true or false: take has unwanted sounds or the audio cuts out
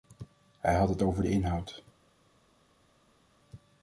false